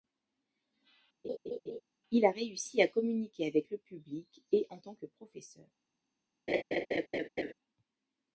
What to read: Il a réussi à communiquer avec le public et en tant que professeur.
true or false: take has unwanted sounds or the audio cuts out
true